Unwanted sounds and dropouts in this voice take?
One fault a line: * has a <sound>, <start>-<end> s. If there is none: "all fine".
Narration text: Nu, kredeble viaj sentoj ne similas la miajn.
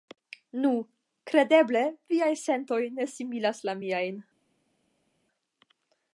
all fine